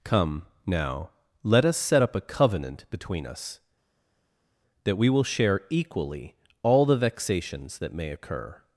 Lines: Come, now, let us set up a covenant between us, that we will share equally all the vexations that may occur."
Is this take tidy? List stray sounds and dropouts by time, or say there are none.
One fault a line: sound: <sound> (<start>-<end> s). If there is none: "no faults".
no faults